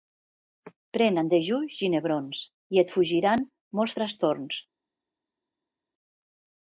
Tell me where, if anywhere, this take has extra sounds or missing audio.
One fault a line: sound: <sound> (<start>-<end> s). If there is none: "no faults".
no faults